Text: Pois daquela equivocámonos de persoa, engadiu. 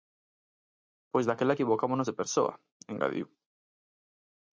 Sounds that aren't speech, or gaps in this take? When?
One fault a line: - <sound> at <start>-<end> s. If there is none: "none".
none